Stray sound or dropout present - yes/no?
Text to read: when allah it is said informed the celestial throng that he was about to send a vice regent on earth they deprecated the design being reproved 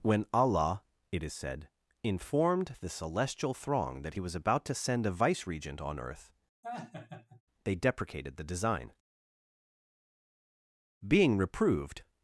yes